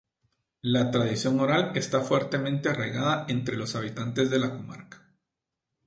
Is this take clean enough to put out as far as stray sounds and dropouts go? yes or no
yes